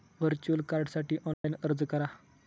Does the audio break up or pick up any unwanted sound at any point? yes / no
yes